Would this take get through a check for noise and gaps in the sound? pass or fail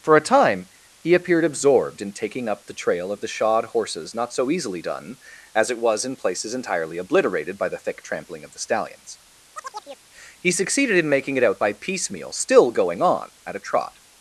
fail